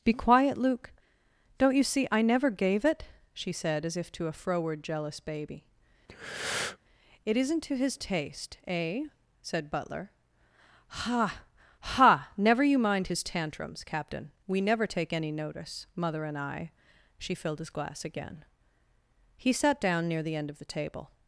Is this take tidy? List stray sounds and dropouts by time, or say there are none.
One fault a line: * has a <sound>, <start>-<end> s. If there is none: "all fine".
* has a breath, 6.1-6.8 s